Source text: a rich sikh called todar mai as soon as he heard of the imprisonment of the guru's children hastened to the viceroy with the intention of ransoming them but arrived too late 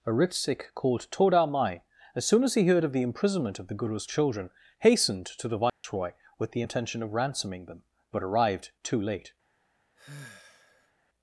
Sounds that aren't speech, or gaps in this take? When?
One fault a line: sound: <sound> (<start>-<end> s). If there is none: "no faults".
sound: dropout (5.7-5.8 s)
sound: sigh (10.0-10.9 s)